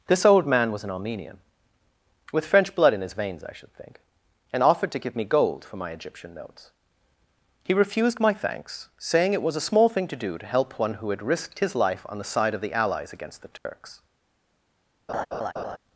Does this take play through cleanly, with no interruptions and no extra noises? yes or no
no